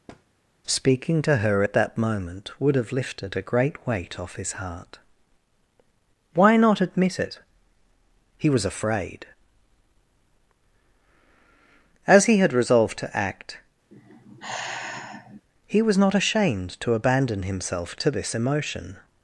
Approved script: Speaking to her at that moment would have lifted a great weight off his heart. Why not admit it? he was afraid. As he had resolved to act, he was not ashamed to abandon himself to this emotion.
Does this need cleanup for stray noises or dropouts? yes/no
yes